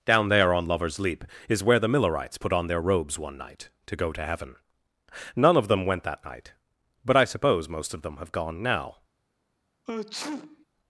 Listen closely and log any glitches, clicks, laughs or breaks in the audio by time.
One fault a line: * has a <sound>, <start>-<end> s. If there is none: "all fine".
* has a sneeze, 9.9-10.7 s